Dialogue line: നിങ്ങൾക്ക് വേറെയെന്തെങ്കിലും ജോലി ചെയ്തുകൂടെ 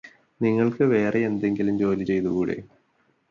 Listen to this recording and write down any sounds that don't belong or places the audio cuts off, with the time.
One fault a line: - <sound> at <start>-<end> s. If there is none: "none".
none